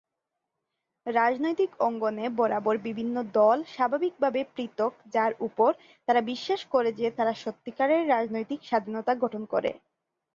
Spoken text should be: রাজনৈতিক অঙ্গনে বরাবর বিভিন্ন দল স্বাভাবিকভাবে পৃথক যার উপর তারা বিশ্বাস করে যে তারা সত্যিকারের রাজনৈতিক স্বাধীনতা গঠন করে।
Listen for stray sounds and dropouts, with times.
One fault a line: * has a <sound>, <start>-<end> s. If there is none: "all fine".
all fine